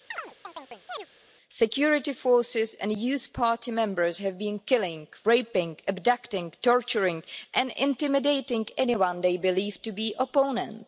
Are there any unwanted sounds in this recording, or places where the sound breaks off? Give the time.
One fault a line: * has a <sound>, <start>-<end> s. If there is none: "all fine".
* has a chirp, 0.1-1.1 s